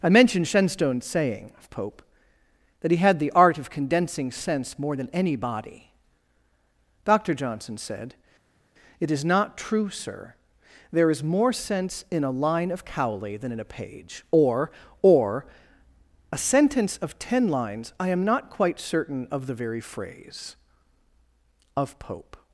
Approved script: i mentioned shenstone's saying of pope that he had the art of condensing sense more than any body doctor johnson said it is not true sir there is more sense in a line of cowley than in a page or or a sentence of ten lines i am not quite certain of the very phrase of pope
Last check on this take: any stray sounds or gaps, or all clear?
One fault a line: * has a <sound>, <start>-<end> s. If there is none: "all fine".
all fine